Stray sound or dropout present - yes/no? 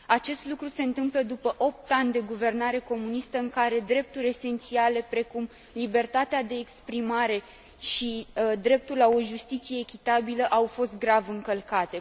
no